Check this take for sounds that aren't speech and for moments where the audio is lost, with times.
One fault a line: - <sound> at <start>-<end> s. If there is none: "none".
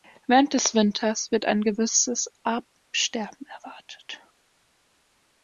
none